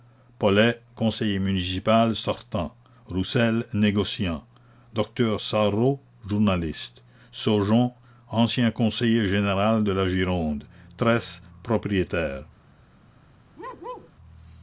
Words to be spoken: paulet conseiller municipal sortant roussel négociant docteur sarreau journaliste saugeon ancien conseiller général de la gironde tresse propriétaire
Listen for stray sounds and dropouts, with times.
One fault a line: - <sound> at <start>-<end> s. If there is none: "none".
- bark at 13.6-14.1 s